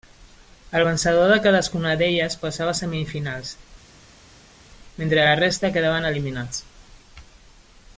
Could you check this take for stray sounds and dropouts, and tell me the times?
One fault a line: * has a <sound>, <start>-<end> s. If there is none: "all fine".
all fine